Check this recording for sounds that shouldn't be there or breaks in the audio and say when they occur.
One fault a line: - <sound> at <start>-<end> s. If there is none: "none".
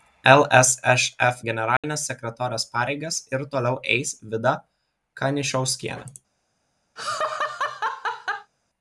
- dropout at 1.8-1.8 s
- laugh at 7.0-8.5 s